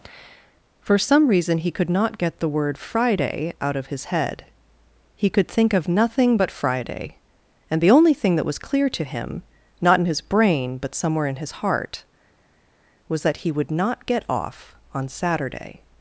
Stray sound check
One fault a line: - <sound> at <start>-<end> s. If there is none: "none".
none